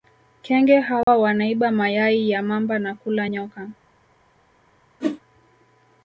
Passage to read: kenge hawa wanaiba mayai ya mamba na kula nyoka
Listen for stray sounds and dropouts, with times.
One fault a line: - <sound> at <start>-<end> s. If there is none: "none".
- dropout at 1.0-1.1 s
- whoosh at 5.0-5.2 s